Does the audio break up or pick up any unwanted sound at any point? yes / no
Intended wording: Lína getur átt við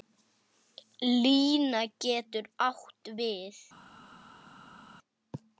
no